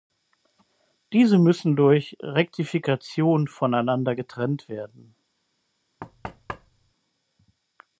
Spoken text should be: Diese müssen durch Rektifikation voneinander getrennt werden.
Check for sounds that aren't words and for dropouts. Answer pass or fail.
fail